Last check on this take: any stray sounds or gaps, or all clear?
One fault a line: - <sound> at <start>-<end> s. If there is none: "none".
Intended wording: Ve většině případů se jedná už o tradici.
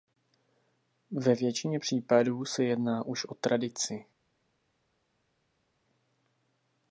none